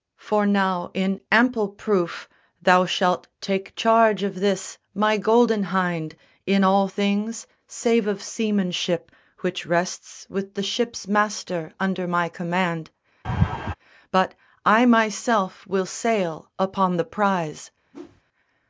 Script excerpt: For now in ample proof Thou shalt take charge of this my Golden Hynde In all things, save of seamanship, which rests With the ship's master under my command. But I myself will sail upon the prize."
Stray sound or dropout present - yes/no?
yes